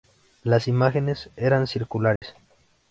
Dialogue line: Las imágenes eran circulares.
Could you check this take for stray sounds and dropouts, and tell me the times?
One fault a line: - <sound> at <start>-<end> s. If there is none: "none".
- dropout at 2.2-2.2 s